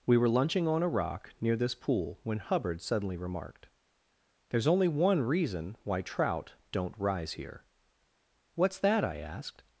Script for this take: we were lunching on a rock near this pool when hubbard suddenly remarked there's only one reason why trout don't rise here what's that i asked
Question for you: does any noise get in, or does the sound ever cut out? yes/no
no